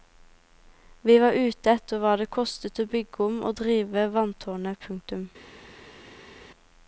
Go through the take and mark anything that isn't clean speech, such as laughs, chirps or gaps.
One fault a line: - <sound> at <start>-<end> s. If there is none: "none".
none